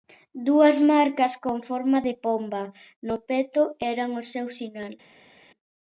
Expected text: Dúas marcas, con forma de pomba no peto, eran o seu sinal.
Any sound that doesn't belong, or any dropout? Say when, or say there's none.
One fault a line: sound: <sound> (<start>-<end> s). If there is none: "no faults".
no faults